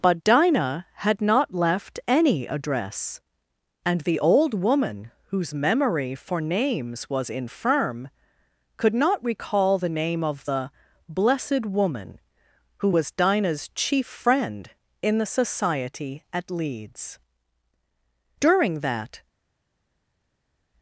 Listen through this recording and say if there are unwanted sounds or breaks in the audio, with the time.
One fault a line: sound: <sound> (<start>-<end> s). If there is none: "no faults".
no faults